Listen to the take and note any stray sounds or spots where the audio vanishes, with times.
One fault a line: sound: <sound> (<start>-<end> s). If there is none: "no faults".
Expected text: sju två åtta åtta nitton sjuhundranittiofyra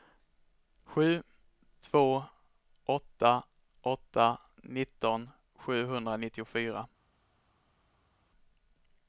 no faults